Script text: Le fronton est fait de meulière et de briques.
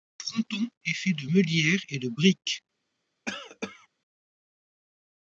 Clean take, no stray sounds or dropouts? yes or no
no